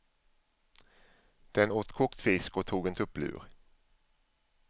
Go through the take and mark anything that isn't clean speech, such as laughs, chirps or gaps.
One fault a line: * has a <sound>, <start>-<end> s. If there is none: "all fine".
all fine